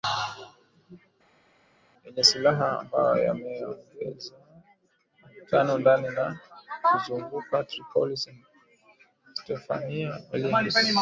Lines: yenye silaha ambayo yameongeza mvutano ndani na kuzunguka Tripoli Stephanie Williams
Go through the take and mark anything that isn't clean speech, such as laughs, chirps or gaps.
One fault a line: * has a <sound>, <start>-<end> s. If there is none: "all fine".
all fine